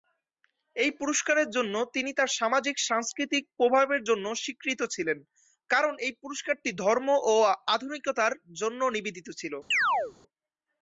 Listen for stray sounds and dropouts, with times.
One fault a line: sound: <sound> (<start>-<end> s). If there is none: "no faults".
sound: chirp (9.7-10.1 s)